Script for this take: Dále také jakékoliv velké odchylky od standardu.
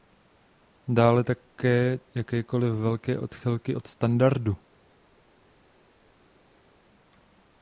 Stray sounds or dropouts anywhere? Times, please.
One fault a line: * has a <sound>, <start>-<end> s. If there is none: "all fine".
all fine